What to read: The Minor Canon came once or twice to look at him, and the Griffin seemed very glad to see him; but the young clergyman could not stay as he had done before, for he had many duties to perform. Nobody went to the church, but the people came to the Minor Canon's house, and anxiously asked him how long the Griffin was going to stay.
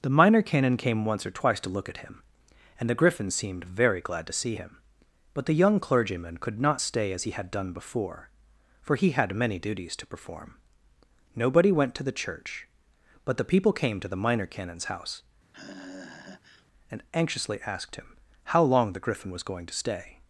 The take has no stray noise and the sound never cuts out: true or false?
false